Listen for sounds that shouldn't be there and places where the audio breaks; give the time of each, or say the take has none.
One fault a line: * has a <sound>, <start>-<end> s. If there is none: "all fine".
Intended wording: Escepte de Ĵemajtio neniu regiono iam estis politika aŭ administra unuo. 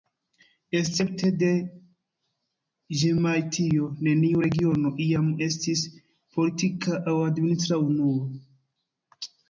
all fine